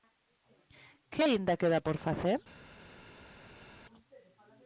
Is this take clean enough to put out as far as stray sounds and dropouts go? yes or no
yes